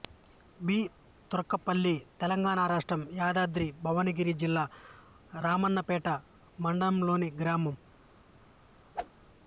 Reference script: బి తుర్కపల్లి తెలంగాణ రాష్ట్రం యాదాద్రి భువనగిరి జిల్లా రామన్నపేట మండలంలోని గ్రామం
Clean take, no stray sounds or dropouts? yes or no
no